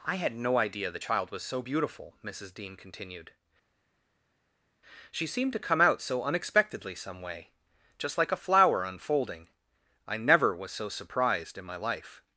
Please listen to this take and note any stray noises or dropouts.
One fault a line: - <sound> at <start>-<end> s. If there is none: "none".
none